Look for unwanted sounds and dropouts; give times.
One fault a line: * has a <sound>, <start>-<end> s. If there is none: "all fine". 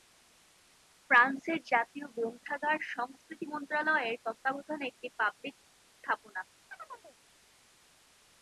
* has a chirp, 6.7-7.2 s